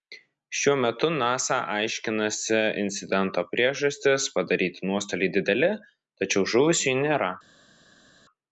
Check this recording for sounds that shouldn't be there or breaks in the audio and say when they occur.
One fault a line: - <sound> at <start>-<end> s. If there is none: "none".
none